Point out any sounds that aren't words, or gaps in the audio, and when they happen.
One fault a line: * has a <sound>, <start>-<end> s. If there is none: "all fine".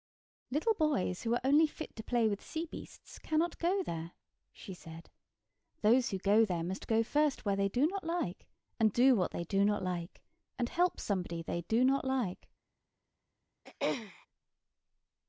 * has a throat clearing, 13.6-14.3 s